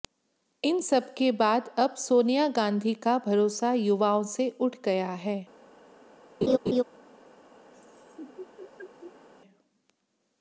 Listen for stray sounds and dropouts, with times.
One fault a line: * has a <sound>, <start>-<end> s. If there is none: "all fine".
* has a laugh, 6.4-6.8 s
* has a laugh, 7.7-9.3 s